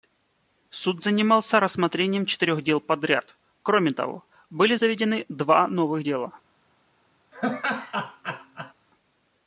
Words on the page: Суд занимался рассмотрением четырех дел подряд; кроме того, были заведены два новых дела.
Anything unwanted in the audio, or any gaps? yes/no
yes